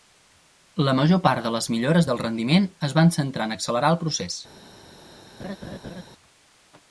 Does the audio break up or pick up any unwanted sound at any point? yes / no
yes